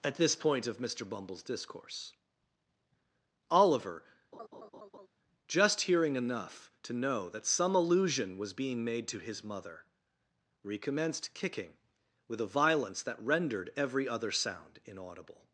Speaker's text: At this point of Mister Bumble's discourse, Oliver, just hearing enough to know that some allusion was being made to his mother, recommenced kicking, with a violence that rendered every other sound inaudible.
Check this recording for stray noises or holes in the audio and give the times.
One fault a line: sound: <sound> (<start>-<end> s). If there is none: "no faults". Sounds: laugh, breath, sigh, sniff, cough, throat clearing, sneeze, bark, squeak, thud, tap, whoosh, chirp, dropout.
sound: laugh (4.3-5.1 s)